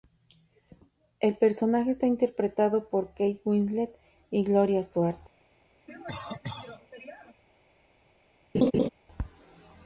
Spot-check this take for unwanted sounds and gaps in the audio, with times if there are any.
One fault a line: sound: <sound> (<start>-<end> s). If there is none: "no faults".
sound: cough (5.9-7.4 s)
sound: laugh (8.5-8.9 s)